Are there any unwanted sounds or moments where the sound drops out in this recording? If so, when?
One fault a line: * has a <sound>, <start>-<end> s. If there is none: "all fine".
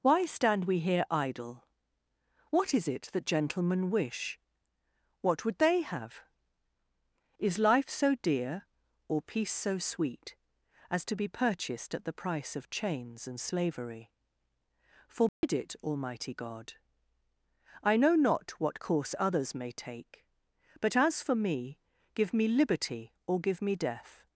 * has a dropout, 15.3-15.4 s